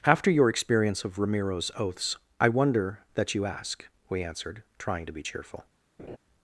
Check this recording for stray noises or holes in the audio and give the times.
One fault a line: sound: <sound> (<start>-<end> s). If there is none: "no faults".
sound: laugh (6.0-6.2 s)